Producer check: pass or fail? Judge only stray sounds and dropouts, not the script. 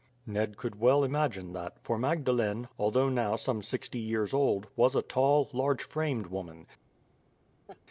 fail